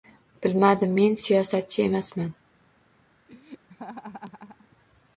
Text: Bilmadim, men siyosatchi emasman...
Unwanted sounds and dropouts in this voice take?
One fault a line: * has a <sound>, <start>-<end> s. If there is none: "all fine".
* has a laugh, 3.3-4.7 s